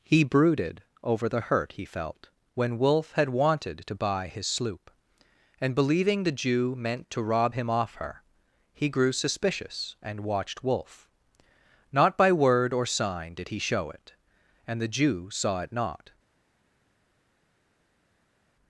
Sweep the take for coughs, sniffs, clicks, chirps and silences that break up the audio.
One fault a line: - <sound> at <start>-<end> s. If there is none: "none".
none